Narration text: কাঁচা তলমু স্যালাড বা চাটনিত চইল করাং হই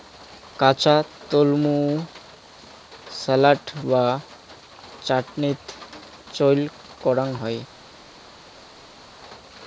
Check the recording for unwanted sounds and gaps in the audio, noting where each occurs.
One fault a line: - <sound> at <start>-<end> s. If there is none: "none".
none